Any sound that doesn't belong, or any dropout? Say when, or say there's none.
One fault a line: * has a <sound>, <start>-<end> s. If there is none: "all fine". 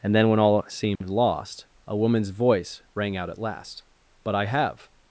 * has a dropout, 1.0-1.0 s